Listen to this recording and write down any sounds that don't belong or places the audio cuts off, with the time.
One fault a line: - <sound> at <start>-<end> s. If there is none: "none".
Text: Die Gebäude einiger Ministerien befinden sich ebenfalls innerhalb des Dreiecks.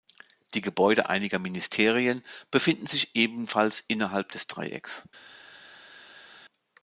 none